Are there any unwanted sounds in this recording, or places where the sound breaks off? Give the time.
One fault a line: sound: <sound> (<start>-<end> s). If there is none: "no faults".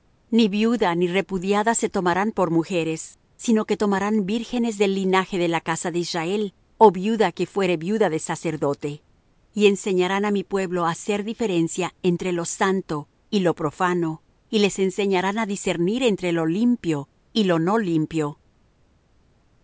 no faults